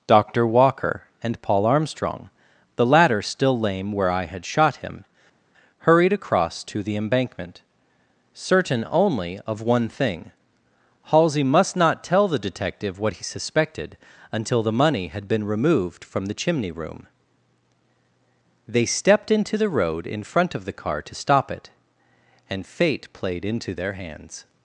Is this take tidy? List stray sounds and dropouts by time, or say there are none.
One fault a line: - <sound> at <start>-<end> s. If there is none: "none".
none